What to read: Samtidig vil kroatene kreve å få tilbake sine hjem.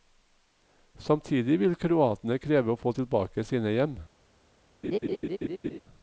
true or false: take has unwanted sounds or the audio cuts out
true